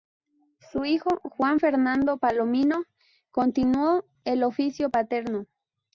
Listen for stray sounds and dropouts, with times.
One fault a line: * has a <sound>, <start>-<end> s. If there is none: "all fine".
all fine